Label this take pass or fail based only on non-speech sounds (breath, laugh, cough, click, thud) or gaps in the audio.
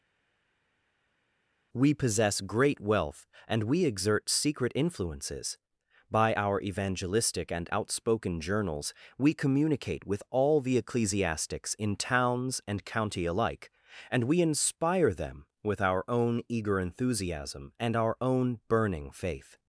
pass